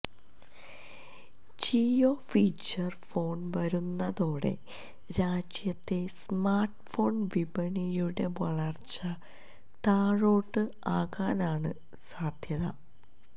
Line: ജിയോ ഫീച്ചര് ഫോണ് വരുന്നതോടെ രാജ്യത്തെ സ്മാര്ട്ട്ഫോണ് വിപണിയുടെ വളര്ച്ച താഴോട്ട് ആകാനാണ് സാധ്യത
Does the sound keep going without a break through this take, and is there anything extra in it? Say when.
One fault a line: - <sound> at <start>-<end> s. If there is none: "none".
none